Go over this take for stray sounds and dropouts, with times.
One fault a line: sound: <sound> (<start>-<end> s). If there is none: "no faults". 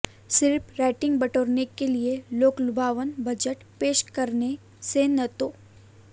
no faults